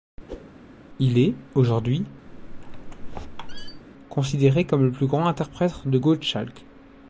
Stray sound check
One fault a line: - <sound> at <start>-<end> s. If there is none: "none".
- whoosh at 0.3-0.5 s
- squeak at 2.3-3.8 s